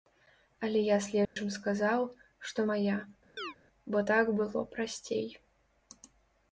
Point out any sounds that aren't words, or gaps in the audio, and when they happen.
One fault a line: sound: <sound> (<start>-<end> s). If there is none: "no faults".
sound: dropout (1.2-1.4 s)
sound: chirp (3.4-3.5 s)